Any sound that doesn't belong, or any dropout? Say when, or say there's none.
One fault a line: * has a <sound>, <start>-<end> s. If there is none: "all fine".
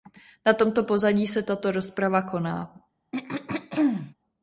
* has a throat clearing, 3.1-4.1 s